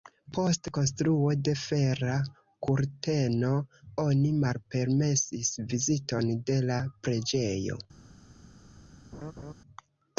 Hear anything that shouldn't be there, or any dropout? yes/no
yes